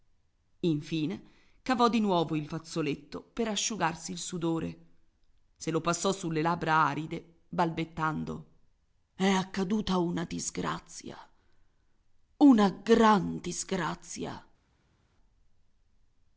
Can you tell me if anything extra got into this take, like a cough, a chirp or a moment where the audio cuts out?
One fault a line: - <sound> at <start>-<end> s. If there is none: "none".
none